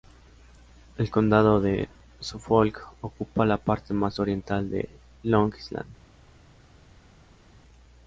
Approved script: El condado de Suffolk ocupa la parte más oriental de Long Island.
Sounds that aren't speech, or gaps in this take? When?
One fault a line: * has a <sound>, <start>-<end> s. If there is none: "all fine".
all fine